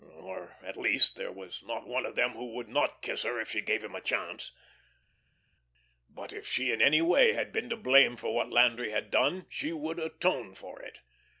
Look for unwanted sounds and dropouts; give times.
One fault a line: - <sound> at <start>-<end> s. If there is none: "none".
none